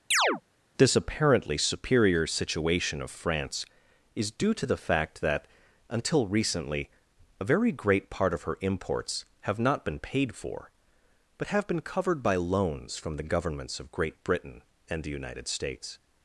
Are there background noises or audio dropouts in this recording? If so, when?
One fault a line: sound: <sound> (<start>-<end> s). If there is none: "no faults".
sound: chirp (0.1-0.4 s)